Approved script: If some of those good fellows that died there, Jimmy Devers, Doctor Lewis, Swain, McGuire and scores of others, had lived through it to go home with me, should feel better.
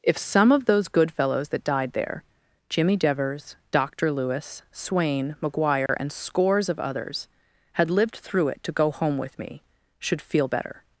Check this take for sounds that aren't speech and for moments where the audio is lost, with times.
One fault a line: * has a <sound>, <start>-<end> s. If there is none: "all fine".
* has a dropout, 5.9-5.9 s